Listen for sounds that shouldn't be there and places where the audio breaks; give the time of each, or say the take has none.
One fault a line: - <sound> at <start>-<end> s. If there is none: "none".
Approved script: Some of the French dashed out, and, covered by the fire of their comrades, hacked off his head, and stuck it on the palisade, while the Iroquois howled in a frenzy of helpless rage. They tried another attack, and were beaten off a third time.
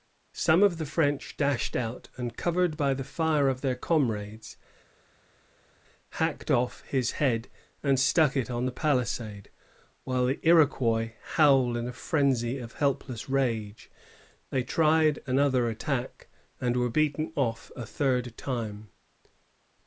none